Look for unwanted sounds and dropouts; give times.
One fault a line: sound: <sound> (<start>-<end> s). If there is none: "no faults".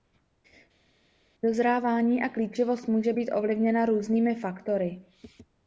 no faults